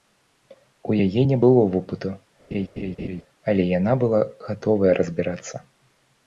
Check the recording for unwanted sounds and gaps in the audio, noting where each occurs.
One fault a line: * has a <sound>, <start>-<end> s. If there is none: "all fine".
* has a laugh, 2.5-3.2 s